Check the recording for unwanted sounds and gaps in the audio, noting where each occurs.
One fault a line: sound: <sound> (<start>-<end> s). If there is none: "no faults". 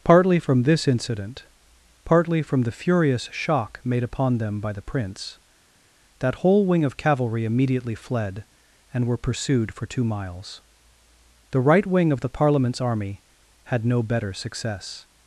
no faults